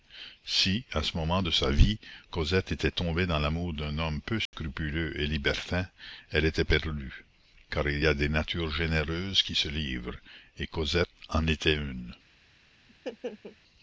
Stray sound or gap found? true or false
true